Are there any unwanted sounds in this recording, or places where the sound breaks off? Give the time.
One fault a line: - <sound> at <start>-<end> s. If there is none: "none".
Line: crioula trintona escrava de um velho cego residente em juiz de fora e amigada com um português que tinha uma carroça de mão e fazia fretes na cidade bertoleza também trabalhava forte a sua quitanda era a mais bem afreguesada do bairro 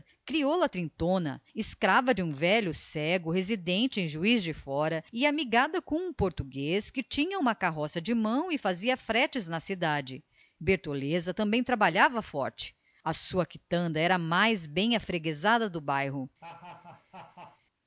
- laugh at 16.4-17.6 s